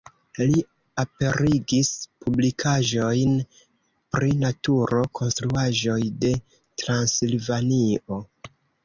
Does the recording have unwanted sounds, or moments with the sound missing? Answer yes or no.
no